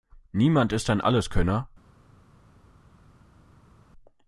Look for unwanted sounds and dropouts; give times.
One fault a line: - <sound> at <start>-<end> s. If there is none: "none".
none